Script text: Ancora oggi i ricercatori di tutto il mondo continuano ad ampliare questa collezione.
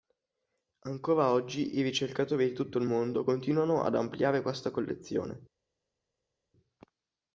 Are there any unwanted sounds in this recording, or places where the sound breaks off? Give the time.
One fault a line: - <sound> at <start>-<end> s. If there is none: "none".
none